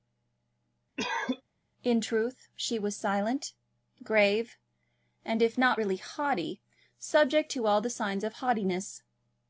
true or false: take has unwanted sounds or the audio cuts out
true